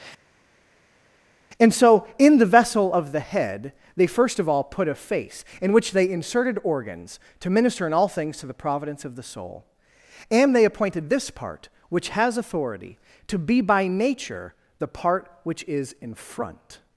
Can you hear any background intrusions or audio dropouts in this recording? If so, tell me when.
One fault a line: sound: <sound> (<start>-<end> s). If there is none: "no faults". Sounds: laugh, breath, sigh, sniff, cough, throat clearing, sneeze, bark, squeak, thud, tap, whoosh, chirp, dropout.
no faults